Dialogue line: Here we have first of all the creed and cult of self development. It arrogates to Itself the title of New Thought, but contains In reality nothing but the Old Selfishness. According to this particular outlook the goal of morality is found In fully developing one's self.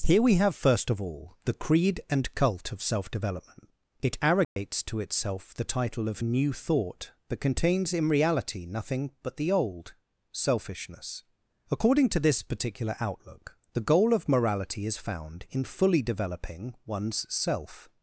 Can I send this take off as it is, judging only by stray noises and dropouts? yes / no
no